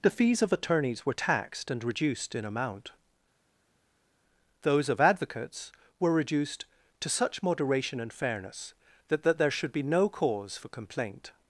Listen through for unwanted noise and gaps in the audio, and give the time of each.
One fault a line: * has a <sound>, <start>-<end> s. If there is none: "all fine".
all fine